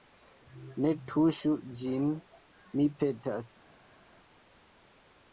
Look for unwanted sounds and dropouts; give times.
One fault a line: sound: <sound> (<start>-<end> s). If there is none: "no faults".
no faults